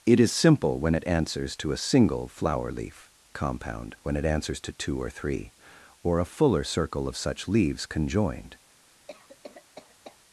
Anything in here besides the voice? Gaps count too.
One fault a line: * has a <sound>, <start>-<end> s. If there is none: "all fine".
* has a cough, 9.1-10.2 s